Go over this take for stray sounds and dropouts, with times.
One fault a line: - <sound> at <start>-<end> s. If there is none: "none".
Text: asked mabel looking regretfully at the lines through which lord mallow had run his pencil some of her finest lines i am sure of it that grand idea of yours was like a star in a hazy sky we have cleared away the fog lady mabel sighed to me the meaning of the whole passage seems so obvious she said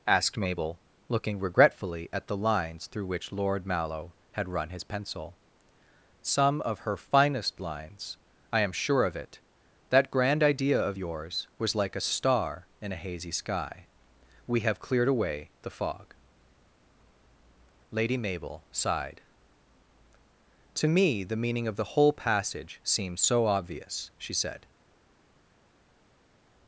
none